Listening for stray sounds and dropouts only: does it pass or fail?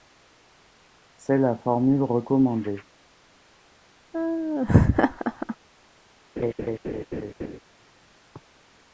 fail